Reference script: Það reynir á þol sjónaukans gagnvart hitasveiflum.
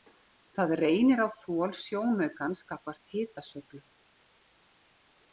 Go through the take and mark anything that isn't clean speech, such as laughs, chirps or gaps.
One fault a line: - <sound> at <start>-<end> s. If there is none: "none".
none